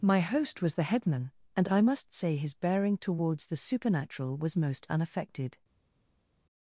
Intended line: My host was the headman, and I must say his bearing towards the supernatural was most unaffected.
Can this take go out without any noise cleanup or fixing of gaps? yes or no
yes